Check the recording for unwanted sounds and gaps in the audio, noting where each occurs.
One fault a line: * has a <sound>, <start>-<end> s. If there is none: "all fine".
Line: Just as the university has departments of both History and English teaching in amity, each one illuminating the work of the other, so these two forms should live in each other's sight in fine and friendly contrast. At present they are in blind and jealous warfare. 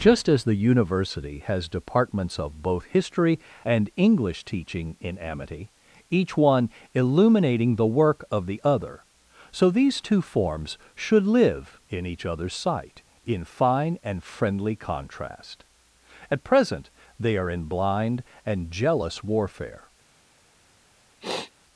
* has a sniff, 21.2-21.5 s